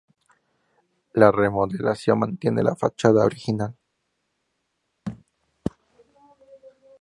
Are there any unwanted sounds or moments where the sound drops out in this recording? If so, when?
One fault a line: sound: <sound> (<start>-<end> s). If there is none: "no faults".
sound: thud (5.1-5.2 s)